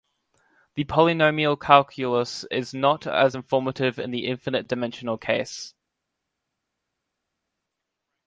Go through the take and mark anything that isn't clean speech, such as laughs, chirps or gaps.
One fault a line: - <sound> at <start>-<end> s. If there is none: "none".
none